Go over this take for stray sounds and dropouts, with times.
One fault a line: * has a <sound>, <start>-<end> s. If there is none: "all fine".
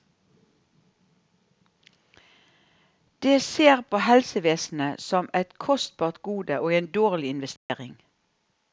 * has a dropout, 7.6-7.7 s